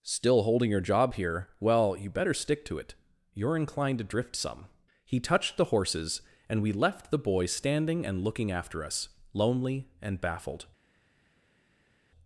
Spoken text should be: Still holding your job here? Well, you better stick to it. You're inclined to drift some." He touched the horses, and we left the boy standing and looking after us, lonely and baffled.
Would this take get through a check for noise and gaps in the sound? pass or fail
pass